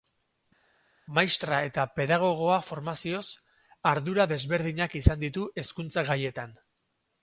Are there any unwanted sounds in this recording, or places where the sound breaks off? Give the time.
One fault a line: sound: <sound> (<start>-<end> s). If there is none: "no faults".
no faults